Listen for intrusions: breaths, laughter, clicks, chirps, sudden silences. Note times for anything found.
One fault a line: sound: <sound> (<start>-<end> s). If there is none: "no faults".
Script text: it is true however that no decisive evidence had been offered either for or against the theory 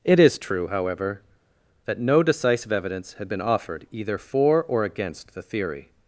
no faults